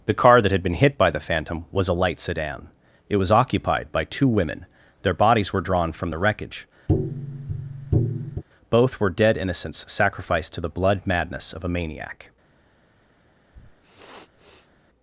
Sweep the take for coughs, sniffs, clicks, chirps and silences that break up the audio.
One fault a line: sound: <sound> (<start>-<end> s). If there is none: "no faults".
sound: tap (6.9-8.4 s)
sound: sniff (13.5-14.7 s)